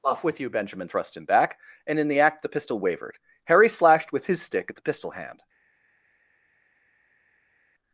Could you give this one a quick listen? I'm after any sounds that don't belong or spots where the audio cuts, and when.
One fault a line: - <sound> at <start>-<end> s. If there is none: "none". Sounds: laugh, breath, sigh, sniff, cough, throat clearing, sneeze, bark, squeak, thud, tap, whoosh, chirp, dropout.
none